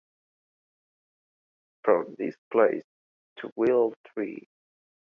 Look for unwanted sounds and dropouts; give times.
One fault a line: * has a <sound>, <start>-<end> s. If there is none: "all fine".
all fine